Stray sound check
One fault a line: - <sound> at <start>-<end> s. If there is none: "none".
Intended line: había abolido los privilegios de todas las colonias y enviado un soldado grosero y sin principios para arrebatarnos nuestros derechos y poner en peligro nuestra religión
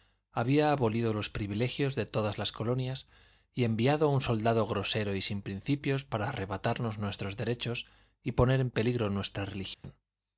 - dropout at 9.7-9.8 s